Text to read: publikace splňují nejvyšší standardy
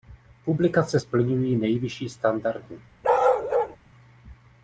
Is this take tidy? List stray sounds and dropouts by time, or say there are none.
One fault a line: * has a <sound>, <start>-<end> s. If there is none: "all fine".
* has a bark, 3.0-3.8 s